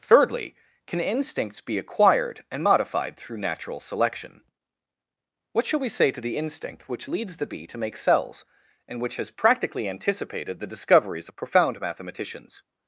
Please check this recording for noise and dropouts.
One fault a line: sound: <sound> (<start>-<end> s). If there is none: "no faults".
no faults